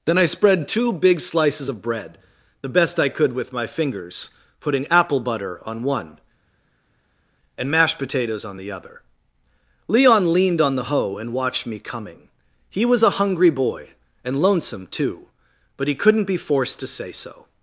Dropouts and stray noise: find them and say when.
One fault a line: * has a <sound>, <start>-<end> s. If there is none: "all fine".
all fine